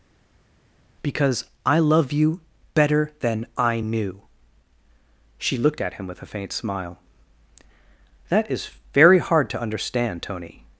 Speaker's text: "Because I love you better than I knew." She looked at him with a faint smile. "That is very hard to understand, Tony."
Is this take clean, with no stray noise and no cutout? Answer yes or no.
yes